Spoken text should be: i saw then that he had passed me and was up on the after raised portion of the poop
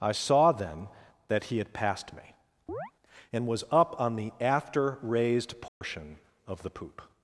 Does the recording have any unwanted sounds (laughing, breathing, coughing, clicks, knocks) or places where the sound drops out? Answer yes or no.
yes